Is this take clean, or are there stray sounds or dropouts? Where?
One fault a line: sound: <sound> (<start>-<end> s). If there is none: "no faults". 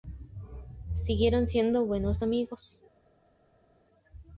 no faults